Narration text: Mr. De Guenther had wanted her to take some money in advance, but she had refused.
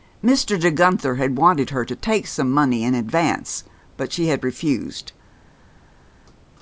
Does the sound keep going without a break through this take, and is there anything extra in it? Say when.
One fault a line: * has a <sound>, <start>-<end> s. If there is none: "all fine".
all fine